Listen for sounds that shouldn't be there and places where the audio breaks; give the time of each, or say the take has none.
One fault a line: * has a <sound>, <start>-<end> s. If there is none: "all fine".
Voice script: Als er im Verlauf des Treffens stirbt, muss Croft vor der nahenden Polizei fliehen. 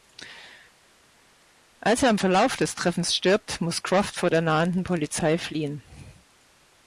all fine